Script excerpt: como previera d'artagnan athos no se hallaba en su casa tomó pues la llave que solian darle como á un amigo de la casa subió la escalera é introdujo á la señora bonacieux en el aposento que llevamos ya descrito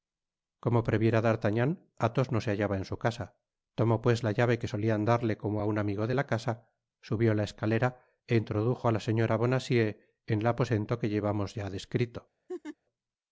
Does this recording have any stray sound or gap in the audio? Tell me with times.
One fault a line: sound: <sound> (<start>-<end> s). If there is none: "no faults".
sound: laugh (12.5-12.8 s)